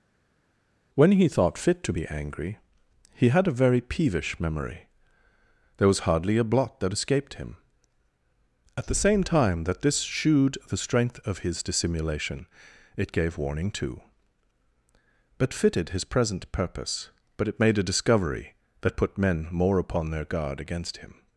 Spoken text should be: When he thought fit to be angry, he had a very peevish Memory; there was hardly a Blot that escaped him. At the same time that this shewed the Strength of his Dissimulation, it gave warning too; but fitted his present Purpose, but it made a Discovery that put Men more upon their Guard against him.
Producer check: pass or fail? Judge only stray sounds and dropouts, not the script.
pass